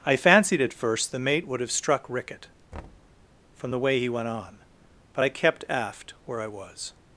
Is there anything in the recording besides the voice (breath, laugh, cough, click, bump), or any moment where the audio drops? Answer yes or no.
yes